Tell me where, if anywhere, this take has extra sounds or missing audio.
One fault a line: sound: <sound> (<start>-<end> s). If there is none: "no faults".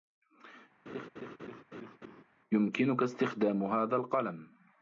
sound: laugh (0.9-2.2 s)